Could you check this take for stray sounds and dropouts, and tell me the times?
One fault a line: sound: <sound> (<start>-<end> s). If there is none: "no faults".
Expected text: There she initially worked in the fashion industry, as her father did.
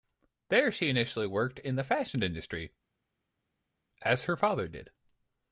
no faults